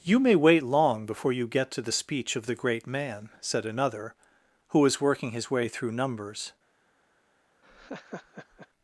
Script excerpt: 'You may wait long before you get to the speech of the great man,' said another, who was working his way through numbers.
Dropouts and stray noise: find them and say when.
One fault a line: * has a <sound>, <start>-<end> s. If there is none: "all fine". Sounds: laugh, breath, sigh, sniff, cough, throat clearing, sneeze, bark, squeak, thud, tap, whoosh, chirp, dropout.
* has a laugh, 7.6-8.7 s